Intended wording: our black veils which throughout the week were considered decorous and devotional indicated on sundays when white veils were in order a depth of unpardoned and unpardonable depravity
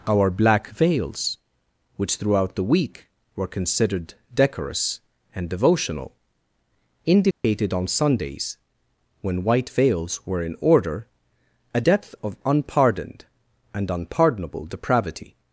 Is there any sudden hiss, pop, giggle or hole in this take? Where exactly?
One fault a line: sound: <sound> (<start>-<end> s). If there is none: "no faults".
sound: dropout (7.3-7.4 s)